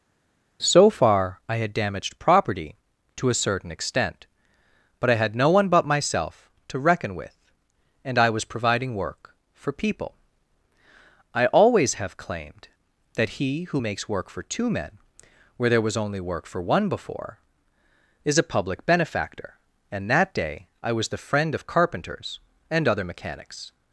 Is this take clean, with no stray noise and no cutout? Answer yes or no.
yes